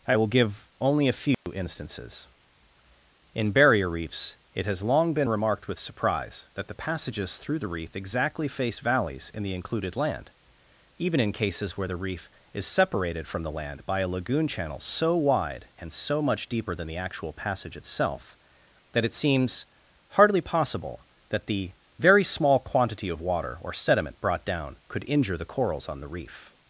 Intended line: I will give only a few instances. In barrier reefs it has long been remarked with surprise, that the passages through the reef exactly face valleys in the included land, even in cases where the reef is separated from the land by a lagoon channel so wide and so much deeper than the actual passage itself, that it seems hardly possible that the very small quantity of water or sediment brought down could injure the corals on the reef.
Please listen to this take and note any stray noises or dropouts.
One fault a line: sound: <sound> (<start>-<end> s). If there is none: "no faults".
sound: dropout (1.3-1.5 s)